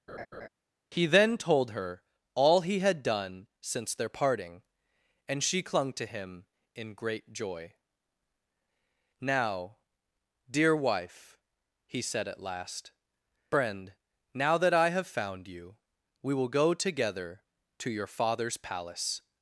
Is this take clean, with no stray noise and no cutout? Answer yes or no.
no